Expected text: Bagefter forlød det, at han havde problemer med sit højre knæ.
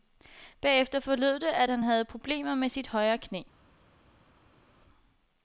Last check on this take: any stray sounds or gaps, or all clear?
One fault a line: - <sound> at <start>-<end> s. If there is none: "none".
none